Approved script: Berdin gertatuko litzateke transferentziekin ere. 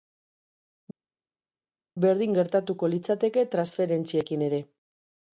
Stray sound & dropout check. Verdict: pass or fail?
pass